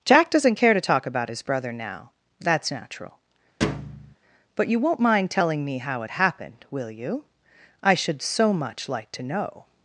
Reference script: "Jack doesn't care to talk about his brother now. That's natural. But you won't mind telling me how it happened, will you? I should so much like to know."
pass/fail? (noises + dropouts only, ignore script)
fail